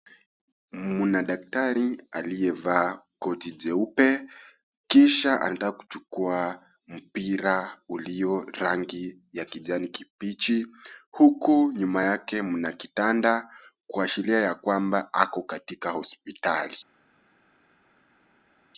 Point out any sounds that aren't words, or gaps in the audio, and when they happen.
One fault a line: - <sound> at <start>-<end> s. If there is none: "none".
none